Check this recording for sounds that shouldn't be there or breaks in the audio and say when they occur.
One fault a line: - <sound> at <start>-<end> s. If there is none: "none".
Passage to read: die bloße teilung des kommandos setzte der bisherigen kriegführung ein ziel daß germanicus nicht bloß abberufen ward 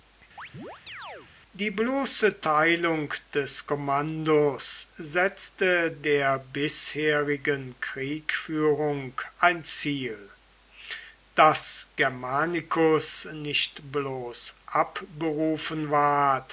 - chirp at 0.4-1.3 s